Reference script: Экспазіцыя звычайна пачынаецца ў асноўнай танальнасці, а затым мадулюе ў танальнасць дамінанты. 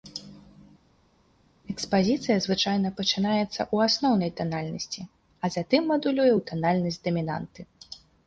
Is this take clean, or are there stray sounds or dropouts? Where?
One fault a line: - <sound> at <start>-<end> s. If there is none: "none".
none